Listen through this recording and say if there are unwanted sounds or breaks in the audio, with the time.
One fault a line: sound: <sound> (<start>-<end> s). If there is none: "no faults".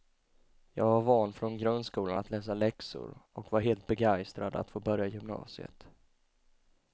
no faults